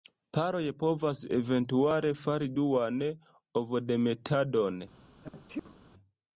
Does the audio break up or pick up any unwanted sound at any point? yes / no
yes